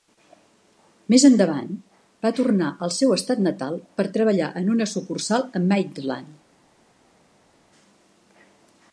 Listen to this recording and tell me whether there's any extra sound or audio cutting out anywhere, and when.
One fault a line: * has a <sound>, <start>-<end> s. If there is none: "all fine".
all fine